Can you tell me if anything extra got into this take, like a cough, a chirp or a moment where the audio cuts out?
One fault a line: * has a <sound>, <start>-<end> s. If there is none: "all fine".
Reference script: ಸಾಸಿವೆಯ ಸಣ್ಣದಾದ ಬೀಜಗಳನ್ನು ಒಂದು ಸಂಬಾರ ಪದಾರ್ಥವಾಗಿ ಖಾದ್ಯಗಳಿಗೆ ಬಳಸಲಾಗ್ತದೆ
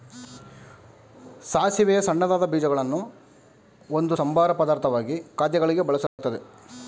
* has a dropout, 6.1-6.2 s